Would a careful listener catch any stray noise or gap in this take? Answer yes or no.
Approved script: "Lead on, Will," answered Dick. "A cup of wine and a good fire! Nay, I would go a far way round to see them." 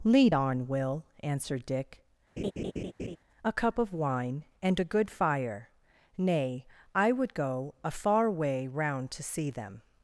yes